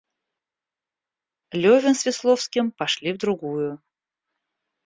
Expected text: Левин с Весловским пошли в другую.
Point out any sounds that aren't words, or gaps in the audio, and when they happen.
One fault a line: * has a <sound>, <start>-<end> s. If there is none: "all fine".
all fine